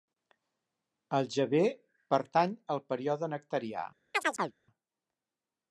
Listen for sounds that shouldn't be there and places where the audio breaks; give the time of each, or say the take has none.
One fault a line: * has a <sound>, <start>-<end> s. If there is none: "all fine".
* has a chirp, 4.1-4.6 s